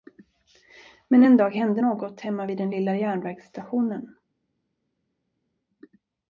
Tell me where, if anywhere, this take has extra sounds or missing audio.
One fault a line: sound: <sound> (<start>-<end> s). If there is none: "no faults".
no faults